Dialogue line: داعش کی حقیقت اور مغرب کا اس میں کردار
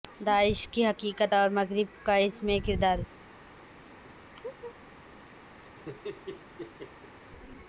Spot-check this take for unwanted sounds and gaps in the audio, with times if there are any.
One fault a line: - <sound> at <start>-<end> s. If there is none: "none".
- laugh at 4.3-4.8 s
- laugh at 5.6-7.2 s